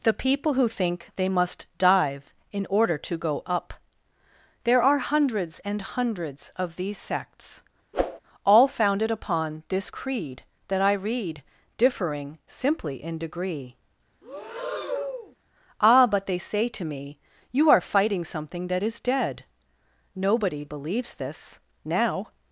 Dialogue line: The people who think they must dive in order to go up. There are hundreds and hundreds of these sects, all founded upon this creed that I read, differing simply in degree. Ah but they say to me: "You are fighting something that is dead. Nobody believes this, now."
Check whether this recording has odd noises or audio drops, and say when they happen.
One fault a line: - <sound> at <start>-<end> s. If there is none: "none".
- whoosh at 7.9-8.2 s
- breath at 14.2-15.4 s